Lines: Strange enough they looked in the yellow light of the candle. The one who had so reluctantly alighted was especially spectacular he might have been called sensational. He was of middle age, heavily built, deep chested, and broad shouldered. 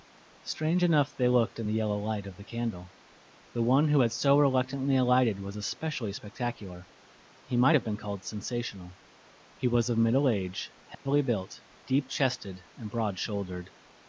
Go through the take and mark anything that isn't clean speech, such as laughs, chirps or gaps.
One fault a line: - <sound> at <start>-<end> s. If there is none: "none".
- dropout at 10.9-11.1 s